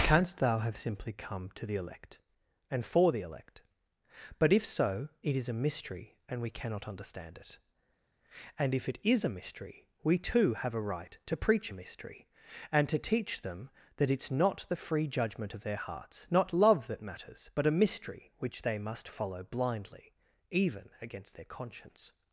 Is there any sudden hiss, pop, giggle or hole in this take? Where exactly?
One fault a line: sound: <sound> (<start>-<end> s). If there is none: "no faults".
no faults